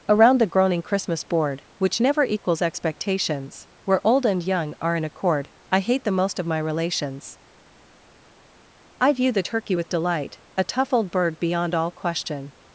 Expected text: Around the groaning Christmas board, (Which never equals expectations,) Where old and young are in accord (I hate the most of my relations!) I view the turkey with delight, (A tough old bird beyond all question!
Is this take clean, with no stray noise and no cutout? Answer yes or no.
yes